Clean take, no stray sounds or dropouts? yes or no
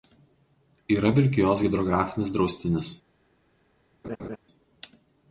no